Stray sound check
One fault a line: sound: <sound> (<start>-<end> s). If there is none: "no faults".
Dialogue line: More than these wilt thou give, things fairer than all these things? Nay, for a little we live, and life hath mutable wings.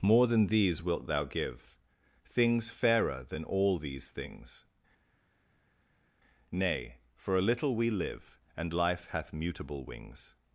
no faults